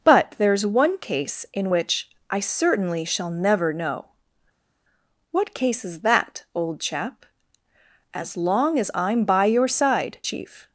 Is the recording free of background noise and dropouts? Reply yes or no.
yes